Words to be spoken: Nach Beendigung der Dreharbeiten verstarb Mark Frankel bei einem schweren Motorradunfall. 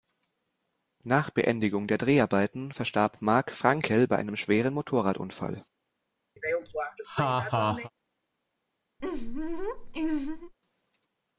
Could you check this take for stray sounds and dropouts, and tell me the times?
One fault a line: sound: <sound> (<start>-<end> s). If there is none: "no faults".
sound: laugh (6.4-7.9 s)
sound: laugh (9.0-10.5 s)